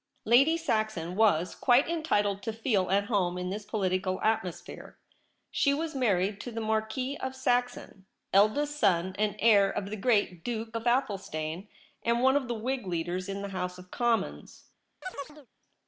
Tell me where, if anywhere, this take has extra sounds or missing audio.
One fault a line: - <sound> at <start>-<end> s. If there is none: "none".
- chirp at 15.0-15.5 s